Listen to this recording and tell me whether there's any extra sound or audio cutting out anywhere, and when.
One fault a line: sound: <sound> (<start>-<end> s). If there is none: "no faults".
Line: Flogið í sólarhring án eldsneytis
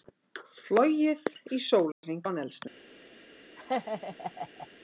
sound: dropout (1.9-2.0 s)
sound: laugh (3.6-4.7 s)